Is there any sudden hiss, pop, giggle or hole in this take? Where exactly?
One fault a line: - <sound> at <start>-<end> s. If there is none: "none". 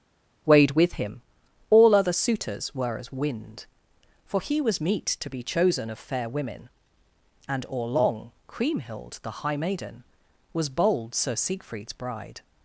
none